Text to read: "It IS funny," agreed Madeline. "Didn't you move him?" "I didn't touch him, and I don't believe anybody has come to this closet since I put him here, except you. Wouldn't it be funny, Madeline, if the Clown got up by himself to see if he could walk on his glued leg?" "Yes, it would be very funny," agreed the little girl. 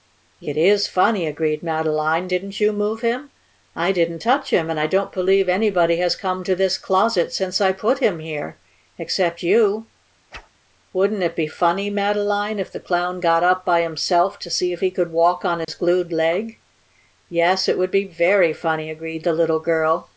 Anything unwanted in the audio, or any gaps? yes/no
yes